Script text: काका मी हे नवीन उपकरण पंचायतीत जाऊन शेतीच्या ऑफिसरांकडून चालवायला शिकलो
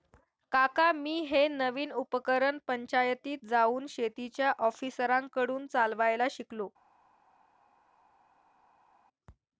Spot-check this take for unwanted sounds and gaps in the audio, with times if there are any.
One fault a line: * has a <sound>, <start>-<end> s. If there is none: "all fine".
all fine